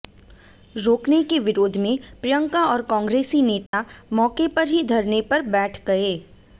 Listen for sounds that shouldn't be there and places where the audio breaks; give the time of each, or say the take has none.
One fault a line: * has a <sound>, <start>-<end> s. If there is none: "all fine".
* has a dropout, 3.7-3.7 s